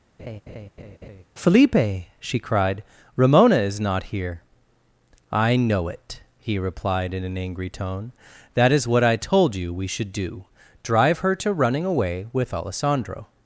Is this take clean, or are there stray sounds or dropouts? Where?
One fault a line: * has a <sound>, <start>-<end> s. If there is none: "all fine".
* has a laugh, 0.2-1.2 s